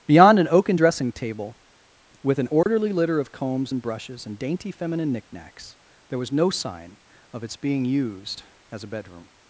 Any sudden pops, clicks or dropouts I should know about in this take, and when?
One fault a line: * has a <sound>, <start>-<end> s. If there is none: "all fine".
* has a dropout, 2.6-2.7 s